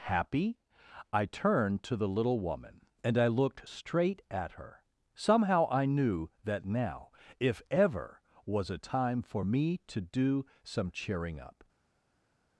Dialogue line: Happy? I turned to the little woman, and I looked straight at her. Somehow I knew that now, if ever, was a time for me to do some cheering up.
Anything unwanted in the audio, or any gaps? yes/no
no